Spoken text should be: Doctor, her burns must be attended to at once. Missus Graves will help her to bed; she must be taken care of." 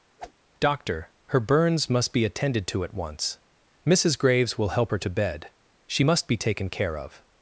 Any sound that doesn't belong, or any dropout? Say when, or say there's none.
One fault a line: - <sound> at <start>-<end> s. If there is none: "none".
- whoosh at 0.2-0.3 s